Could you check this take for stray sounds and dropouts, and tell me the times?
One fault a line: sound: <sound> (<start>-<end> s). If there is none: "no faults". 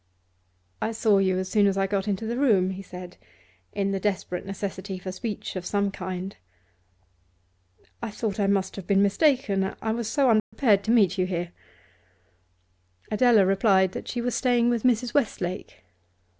sound: dropout (10.4-10.5 s)